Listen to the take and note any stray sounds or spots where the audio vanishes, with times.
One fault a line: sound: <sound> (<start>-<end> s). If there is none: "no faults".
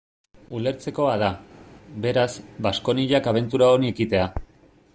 no faults